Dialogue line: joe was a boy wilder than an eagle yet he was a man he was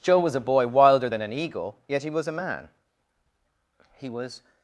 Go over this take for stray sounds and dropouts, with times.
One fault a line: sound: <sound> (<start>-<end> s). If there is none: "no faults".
no faults